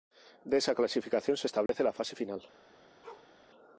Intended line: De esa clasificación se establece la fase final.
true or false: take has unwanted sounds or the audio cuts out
true